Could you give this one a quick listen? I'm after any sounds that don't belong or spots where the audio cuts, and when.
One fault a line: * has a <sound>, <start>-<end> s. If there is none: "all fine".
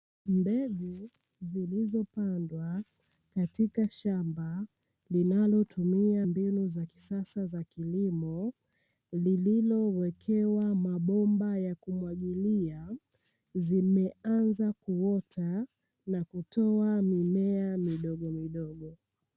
all fine